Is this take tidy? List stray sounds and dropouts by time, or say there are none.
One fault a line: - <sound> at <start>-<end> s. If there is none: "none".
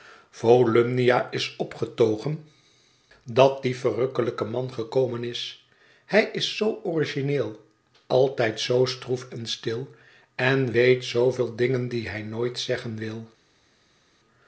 none